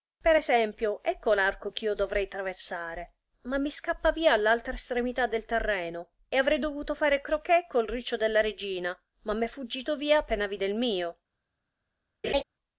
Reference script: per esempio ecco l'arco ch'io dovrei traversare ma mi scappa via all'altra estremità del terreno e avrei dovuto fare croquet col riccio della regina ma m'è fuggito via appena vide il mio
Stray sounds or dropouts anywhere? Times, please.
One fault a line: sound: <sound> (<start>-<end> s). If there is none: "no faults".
sound: laugh (12.2-12.4 s)